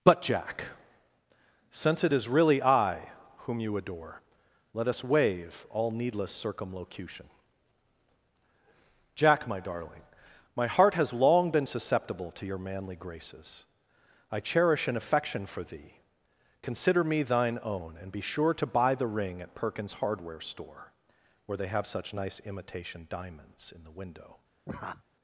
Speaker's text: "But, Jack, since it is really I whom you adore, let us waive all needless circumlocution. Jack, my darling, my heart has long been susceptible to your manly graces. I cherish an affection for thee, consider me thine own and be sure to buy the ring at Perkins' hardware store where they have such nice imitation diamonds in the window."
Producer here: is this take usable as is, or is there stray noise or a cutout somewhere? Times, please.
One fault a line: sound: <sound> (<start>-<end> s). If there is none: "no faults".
sound: laugh (24.7-25.0 s)